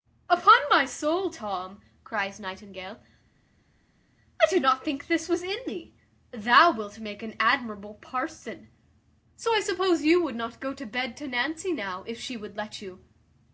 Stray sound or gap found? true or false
false